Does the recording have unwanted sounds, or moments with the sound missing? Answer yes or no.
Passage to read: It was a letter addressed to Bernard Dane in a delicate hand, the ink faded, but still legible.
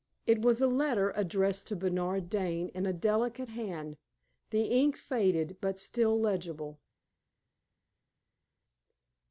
no